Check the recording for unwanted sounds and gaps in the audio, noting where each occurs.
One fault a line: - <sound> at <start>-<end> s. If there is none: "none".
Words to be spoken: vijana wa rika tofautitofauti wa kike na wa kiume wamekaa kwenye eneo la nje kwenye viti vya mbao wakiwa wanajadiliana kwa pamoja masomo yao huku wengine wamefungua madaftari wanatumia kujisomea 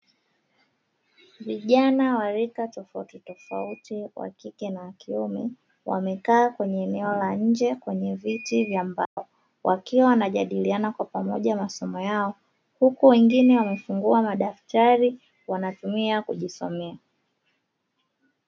- dropout at 9.1-9.2 s